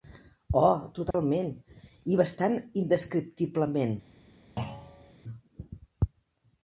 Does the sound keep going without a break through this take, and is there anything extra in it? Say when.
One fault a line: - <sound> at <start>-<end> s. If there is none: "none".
- dropout at 1.1-1.1 s
- thud at 4.6-5.1 s